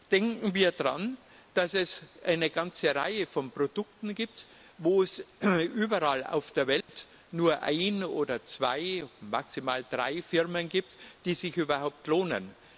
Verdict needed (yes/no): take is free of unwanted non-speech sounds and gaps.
no